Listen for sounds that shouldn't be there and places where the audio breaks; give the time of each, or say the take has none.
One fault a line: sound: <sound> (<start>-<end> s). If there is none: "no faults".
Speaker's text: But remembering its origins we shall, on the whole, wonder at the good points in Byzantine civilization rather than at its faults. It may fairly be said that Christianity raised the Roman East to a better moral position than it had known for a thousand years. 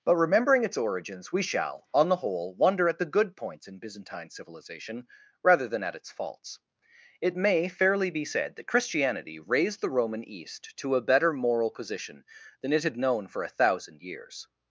no faults